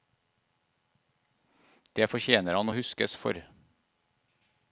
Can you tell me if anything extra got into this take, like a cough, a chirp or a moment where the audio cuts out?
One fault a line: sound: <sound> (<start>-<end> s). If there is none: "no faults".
no faults